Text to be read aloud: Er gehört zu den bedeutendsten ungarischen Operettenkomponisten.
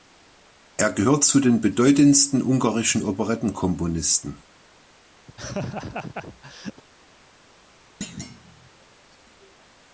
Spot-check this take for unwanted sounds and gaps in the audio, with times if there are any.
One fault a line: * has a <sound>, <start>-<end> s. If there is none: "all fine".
* has a laugh, 5.3-6.8 s
* has a thud, 8.0-8.7 s